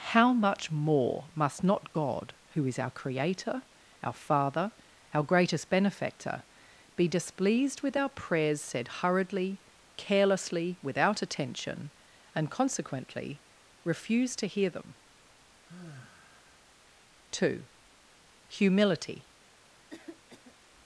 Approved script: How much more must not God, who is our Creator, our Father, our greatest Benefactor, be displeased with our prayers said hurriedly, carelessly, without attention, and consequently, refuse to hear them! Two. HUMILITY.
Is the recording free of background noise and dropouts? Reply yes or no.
no